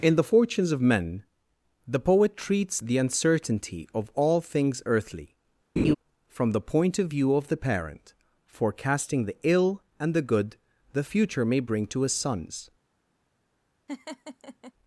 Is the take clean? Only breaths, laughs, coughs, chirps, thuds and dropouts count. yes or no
no